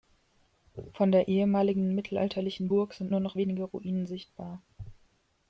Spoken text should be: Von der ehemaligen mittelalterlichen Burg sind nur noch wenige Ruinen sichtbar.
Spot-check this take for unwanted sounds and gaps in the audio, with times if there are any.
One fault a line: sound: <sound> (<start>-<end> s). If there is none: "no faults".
no faults